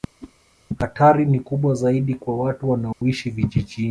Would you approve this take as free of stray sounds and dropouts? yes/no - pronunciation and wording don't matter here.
no